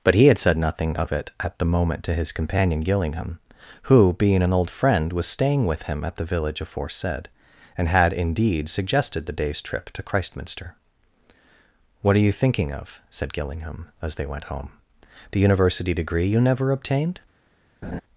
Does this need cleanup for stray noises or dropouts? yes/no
yes